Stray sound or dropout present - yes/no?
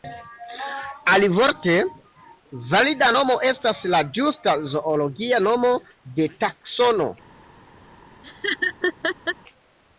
yes